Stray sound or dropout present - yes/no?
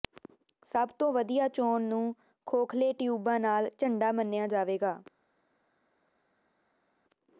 no